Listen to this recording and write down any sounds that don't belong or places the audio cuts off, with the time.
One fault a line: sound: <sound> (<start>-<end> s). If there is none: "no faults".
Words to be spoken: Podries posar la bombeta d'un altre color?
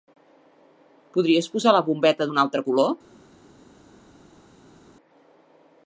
no faults